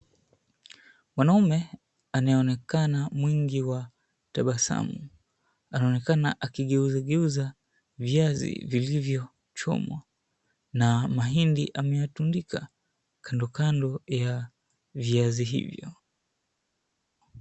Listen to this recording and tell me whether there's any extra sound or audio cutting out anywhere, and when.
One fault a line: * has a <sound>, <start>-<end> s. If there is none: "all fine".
all fine